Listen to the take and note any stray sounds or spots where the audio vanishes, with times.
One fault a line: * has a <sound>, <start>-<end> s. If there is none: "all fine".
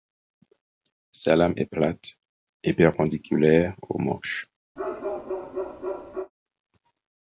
* has a bark, 4.8-6.3 s